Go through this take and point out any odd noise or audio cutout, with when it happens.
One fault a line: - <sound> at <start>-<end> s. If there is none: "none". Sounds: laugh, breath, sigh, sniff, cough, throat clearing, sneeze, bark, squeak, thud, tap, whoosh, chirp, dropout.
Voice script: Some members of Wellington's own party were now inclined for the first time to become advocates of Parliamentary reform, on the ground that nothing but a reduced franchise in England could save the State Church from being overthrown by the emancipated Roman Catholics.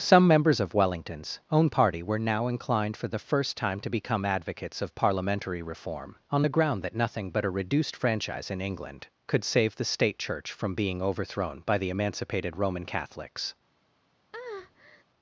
- breath at 14.3-15.0 s